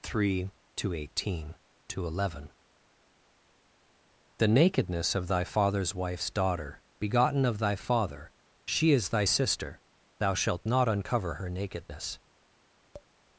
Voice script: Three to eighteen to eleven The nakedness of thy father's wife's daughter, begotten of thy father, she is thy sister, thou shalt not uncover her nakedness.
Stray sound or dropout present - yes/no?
yes